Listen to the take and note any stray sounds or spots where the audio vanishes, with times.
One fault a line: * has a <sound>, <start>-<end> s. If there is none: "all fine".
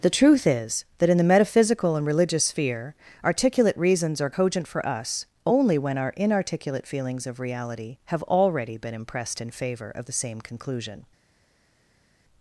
all fine